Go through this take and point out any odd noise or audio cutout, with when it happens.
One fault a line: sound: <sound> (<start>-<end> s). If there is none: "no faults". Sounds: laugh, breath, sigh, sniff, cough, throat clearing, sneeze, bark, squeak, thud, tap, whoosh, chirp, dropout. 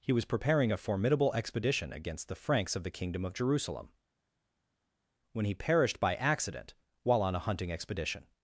no faults